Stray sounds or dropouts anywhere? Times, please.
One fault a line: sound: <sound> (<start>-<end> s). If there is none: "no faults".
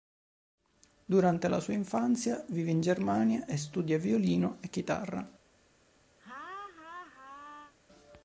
sound: laugh (6.2-7.7 s)